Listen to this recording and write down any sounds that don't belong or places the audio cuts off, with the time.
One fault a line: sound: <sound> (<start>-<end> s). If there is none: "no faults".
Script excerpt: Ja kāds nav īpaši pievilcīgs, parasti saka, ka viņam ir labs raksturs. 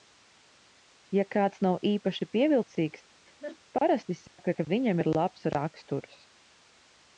sound: laugh (3.3-3.6 s)
sound: dropout (4.3-4.4 s)